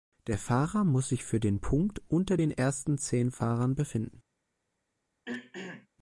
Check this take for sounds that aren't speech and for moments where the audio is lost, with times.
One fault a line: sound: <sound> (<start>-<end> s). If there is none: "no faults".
sound: throat clearing (5.3-5.9 s)